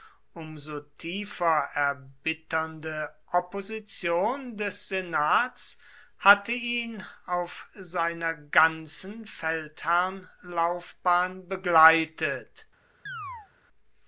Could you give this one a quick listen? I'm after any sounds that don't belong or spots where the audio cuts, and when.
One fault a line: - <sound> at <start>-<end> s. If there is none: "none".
- chirp at 13.1-13.5 s